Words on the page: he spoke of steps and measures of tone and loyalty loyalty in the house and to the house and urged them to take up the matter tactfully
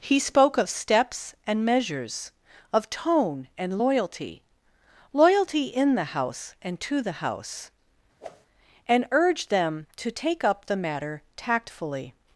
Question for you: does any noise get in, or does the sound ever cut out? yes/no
yes